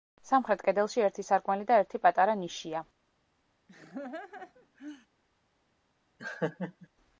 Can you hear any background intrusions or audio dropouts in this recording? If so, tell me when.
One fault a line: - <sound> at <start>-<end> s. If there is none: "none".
- laugh at 3.7-5.1 s
- laugh at 6.2-6.9 s